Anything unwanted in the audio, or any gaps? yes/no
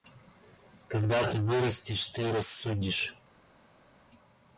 no